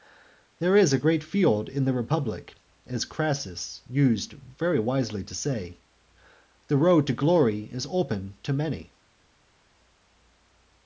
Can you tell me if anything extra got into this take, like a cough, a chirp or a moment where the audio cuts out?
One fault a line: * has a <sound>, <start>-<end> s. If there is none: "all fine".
all fine